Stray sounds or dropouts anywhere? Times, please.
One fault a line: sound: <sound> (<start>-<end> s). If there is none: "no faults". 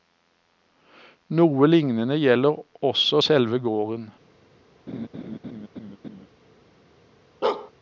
sound: laugh (4.9-6.3 s)
sound: bark (7.4-7.7 s)